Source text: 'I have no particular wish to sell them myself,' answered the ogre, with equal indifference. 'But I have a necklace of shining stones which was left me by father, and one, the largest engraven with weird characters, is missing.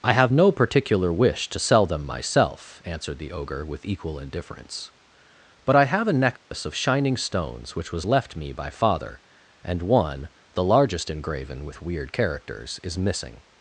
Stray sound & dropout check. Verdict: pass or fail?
fail